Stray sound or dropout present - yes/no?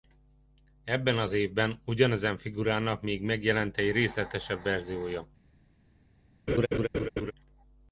yes